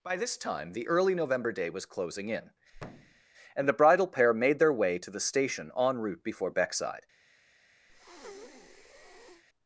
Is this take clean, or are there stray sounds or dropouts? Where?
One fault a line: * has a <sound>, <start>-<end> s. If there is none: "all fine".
* has a thud, 2.7-3.2 s
* has a breath, 7.9-9.4 s